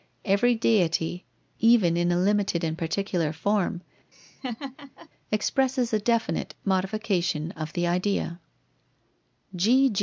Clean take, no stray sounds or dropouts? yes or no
no